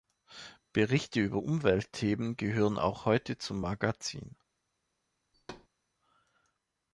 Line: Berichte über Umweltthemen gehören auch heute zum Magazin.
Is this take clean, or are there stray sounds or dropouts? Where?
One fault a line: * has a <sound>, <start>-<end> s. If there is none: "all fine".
* has a thud, 5.3-5.7 s